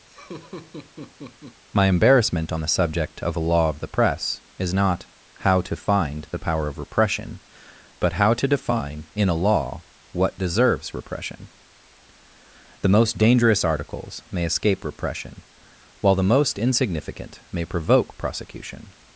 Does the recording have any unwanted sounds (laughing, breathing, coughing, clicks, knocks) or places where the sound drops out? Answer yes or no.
yes